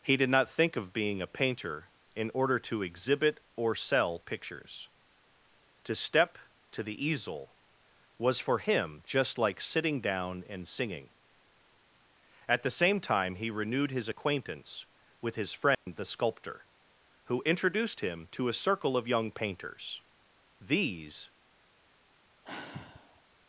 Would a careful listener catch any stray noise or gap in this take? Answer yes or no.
yes